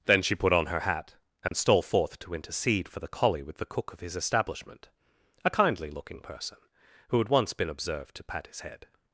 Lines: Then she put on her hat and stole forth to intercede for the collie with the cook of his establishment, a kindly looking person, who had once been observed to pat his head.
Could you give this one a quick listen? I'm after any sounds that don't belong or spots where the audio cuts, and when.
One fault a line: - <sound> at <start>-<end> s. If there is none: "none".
- dropout at 1.5-1.5 s